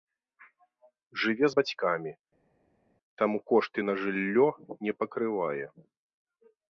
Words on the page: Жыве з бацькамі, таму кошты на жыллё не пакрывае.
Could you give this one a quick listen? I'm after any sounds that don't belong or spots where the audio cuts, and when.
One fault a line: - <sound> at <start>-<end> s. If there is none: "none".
none